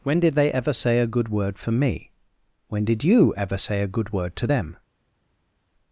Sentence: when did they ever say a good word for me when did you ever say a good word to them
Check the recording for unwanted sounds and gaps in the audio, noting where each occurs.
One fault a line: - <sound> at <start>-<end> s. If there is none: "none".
none